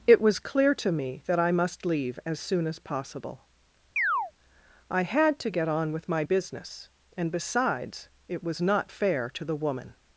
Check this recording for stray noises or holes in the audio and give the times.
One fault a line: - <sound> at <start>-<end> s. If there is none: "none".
- chirp at 4.0-4.3 s